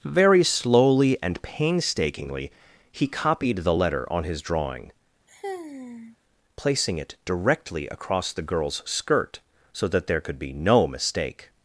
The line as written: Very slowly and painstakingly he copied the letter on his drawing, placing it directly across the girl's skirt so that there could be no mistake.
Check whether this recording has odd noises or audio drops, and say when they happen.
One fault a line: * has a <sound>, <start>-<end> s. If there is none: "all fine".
* has a sigh, 5.3-6.2 s